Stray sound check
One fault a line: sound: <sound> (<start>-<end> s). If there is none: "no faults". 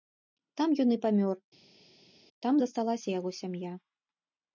no faults